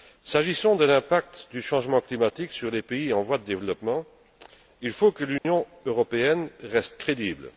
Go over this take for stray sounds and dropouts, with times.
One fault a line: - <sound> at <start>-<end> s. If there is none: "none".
- dropout at 5.4-5.4 s